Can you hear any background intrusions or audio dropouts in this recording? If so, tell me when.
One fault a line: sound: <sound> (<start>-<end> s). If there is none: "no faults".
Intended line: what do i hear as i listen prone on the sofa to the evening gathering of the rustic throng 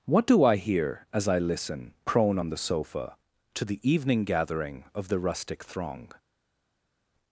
no faults